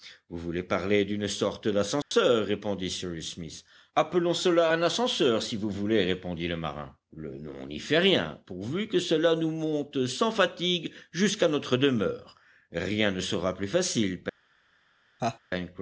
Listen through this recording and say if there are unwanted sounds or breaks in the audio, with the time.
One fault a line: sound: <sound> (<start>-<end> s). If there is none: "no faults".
sound: dropout (2.0-2.1 s)
sound: laugh (15.2-15.4 s)